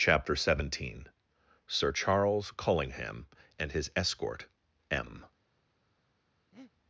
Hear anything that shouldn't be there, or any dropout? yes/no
yes